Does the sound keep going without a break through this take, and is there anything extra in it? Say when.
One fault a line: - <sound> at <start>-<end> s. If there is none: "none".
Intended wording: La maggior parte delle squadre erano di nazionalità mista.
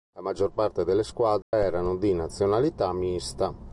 - dropout at 1.4-1.5 s